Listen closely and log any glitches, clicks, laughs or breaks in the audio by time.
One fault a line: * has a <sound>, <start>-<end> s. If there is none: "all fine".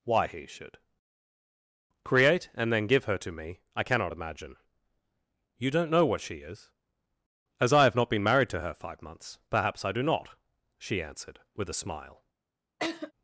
* has a laugh, 12.8-13.1 s